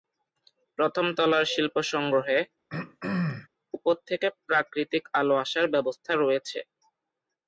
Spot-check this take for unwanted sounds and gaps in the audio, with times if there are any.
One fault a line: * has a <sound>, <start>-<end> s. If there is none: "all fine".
* has a throat clearing, 2.7-3.5 s